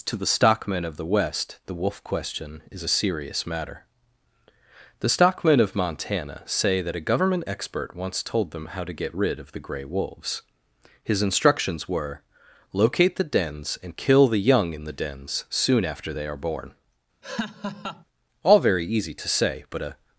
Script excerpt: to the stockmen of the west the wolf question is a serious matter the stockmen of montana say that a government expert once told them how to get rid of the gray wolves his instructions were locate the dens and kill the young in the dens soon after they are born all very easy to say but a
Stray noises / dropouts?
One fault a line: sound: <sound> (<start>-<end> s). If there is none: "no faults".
sound: laugh (17.2-18.0 s)